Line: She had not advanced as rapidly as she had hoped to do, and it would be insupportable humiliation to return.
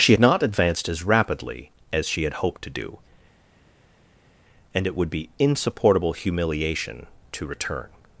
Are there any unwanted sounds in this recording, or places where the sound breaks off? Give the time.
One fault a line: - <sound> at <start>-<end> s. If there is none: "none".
none